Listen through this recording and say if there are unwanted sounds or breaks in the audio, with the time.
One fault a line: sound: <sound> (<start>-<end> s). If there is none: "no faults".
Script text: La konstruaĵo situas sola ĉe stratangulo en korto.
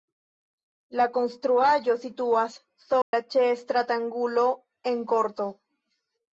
sound: dropout (3.0-3.1 s)